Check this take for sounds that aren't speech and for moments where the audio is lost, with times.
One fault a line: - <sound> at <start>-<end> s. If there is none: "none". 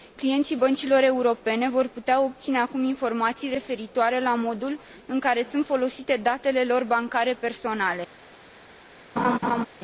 - laugh at 9.2-9.7 s